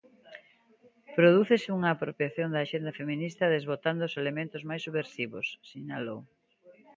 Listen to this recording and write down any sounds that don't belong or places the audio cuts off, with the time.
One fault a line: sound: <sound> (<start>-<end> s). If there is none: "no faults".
no faults